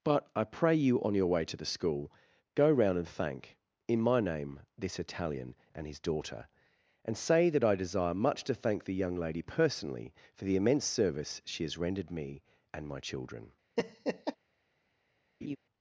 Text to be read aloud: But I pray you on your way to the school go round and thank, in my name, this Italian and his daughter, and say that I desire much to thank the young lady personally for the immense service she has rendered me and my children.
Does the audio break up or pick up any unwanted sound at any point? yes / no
yes